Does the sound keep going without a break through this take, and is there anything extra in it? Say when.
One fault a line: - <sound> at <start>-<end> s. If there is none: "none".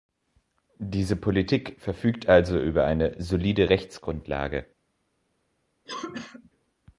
- cough at 5.9-6.5 s